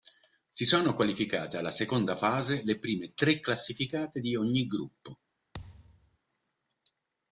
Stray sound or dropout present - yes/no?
yes